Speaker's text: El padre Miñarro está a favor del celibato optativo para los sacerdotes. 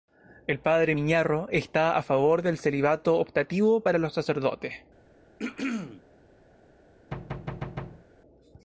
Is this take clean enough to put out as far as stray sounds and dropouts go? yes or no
no